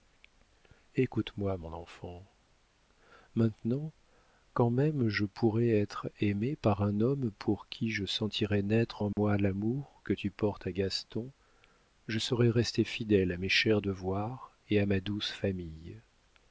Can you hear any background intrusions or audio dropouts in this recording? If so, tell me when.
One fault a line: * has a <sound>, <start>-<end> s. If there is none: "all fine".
* has a dropout, 9.1-9.2 s